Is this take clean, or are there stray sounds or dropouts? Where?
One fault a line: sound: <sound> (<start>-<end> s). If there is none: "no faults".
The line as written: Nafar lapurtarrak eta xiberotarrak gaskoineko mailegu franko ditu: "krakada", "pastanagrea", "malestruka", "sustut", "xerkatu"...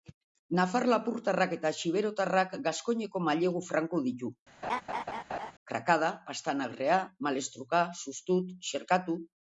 sound: laugh (4.6-5.5 s)